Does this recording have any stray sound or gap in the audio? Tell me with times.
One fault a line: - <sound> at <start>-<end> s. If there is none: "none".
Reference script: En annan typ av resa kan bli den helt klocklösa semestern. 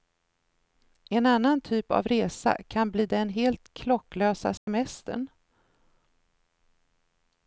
- dropout at 4.6-4.7 s